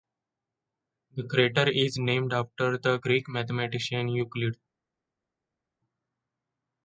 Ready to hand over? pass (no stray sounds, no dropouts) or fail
pass